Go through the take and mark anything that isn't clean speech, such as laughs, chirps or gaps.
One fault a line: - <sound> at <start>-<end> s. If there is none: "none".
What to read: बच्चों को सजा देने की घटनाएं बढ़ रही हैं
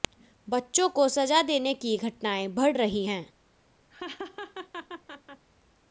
- laugh at 3.9-5.5 s